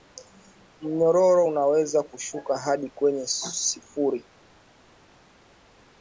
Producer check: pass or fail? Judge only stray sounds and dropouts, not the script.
pass